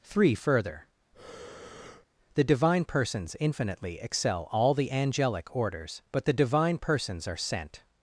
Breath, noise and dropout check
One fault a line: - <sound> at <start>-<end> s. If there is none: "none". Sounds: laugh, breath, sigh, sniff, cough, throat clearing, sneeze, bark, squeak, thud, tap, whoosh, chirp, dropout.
- breath at 1.1-2.1 s